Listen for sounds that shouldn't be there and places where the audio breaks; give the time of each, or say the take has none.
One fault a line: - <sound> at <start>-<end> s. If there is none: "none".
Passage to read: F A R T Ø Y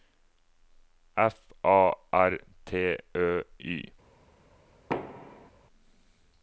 - thud at 4.9-5.5 s